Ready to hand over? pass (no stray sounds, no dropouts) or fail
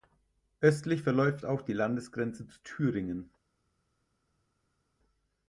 pass